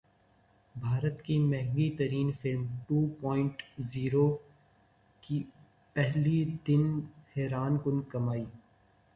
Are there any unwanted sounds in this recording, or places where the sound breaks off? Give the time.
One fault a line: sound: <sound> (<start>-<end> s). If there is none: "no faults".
no faults